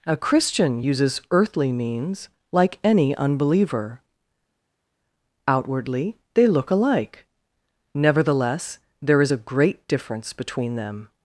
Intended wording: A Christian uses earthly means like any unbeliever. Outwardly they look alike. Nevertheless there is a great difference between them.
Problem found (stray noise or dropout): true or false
false